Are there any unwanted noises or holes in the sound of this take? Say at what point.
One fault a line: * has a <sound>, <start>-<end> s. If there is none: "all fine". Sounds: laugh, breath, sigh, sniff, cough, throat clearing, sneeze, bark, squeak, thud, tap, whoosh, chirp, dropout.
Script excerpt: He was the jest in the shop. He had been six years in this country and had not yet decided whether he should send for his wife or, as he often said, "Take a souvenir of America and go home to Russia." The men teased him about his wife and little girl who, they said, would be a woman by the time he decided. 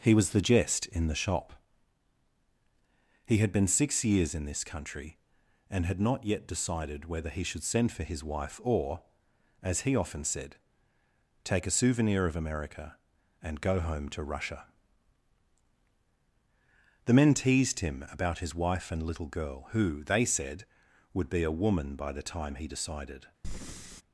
* has a breath, 23.4-24.0 s